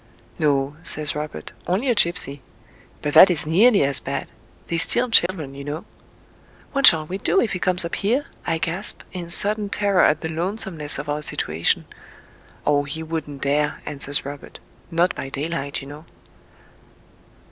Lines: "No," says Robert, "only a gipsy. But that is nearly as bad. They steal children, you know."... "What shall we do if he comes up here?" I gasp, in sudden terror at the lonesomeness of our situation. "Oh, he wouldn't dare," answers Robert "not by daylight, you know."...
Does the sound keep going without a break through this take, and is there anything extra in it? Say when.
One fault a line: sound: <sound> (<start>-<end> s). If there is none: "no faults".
sound: dropout (5.3-5.3 s)